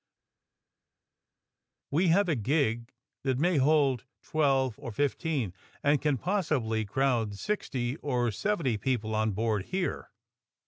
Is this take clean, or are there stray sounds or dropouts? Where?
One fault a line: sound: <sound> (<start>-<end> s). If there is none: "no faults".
no faults